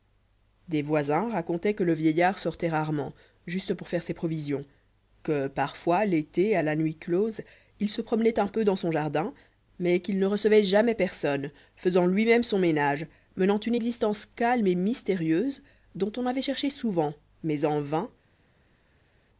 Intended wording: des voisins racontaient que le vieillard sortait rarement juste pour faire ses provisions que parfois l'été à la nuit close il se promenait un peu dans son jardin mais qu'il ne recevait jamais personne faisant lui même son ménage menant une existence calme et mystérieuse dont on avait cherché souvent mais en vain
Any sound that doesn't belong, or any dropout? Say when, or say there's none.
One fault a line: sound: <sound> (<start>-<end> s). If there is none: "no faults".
no faults